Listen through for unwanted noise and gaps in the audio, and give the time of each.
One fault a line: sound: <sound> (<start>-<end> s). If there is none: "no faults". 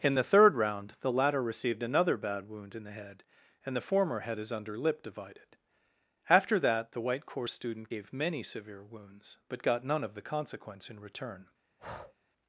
sound: breath (11.8-12.1 s)